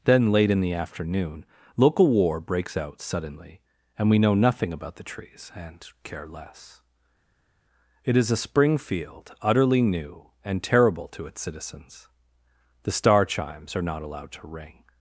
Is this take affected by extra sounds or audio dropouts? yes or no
no